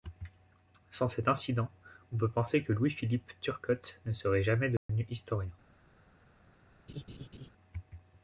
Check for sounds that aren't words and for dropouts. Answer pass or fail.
fail